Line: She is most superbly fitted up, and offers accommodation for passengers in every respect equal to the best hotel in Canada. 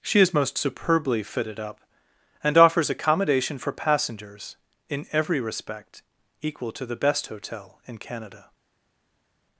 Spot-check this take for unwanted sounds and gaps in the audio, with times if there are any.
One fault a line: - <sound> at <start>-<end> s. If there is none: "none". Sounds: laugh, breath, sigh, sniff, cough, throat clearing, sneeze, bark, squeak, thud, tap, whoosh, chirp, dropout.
none